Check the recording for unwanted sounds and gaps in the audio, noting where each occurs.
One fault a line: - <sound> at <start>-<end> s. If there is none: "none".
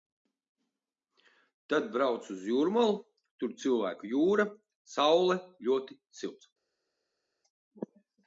none